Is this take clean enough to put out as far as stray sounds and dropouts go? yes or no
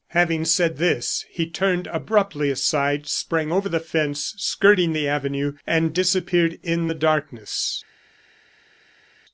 yes